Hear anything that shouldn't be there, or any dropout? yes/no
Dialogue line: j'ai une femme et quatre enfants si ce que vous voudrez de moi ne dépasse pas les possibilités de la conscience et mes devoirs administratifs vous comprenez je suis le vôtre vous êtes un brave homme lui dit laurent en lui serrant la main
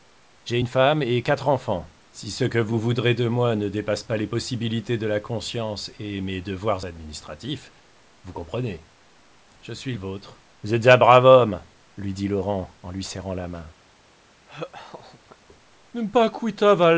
yes